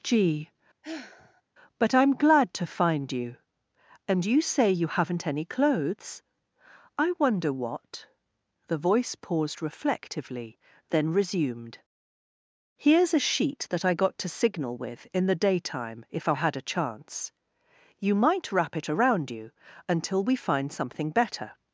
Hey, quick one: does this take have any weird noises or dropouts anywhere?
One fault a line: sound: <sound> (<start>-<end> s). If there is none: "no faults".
sound: sigh (0.8-1.4 s)